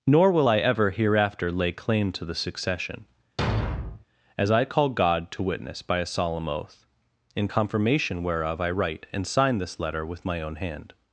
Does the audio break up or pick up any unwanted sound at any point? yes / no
yes